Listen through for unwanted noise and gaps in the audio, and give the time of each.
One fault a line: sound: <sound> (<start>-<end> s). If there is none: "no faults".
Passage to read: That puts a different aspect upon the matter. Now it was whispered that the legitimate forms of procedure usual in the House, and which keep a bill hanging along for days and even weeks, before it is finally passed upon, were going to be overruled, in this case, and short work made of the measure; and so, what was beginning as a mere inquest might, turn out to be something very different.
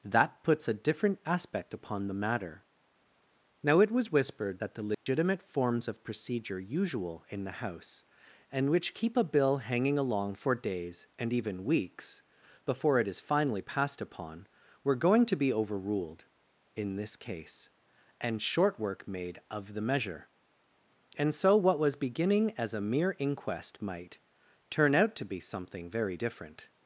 sound: dropout (4.9-5.1 s)